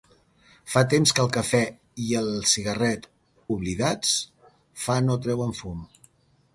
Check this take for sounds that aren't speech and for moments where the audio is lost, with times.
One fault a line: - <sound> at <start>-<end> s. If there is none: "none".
none